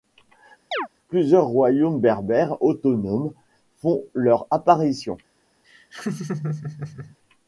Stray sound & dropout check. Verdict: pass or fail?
fail